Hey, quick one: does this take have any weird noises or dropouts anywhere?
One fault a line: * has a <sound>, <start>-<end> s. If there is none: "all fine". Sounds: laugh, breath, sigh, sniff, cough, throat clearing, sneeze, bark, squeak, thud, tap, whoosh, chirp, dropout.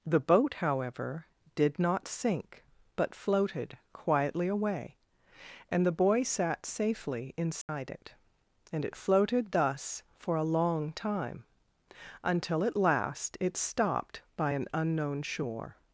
* has a dropout, 7.6-7.7 s